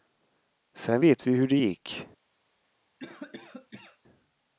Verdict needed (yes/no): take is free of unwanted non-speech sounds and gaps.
no